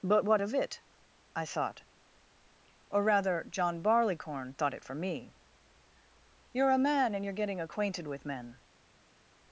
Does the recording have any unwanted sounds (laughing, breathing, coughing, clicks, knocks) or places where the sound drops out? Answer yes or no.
no